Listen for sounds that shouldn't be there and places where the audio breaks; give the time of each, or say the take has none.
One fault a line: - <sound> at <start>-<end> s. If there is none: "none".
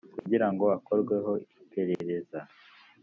- dropout at 0.2-0.3 s
- dropout at 1.9-2.0 s